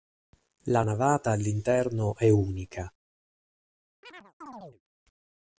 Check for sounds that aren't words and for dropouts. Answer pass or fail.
fail